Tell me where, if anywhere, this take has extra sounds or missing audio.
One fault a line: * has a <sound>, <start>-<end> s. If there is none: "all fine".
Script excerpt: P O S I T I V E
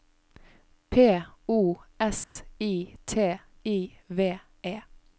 * has a dropout, 2.2-2.4 s